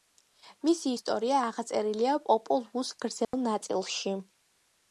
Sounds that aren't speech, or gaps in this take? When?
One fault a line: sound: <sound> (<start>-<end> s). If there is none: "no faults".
sound: dropout (3.2-3.3 s)